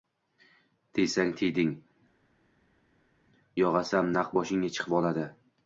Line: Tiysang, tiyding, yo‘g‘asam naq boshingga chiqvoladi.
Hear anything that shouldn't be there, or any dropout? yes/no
no